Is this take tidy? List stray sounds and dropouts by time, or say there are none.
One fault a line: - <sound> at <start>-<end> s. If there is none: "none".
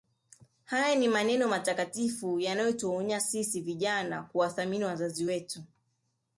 none